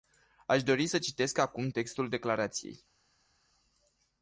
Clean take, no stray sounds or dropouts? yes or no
yes